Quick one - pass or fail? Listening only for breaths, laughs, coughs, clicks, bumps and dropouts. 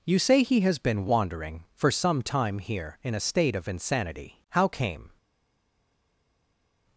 pass